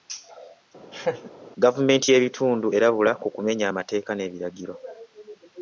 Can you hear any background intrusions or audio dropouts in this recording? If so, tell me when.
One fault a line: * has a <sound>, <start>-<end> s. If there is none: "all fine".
* has a laugh, 0.9-1.3 s